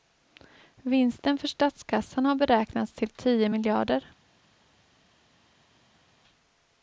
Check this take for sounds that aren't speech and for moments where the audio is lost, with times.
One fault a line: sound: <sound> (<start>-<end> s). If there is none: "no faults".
no faults